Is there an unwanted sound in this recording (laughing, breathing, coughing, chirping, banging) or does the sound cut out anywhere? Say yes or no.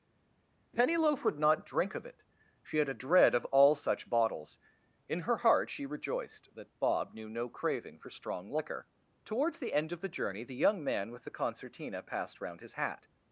no